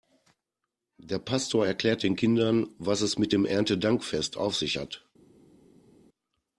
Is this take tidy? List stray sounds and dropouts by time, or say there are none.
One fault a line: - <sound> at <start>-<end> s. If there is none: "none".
none